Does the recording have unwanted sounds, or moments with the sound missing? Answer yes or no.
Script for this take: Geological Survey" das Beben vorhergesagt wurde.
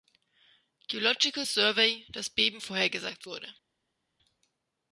no